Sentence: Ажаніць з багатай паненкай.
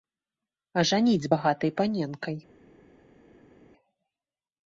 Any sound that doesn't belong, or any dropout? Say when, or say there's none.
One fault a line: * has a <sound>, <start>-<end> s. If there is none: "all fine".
all fine